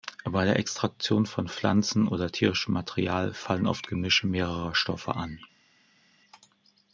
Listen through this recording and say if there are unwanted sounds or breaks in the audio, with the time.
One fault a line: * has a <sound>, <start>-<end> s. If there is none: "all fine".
all fine